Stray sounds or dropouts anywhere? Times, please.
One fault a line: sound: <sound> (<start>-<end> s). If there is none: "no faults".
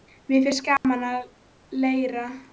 sound: dropout (0.8-0.8 s)